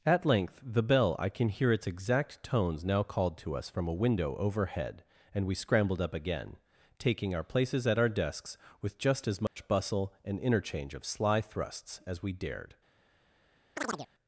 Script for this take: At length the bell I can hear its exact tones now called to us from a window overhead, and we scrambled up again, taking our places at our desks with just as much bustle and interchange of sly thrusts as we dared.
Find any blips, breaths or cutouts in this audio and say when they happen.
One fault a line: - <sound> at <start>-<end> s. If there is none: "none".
- dropout at 9.5-9.6 s
- chirp at 13.8-14.1 s